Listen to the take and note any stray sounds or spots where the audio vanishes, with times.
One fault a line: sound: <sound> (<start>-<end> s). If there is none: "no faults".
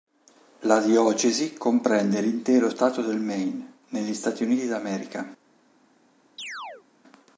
sound: chirp (6.4-6.9 s)